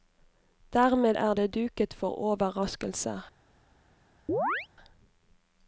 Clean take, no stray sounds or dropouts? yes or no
no